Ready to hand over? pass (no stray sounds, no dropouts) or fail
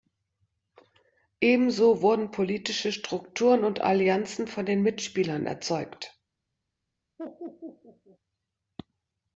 fail